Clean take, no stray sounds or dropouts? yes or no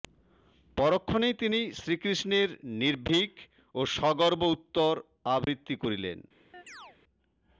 no